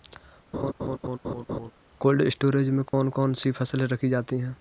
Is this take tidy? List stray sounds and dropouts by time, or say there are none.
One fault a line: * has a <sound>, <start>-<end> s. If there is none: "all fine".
* has a laugh, 0.5-1.7 s
* has a dropout, 2.9-2.9 s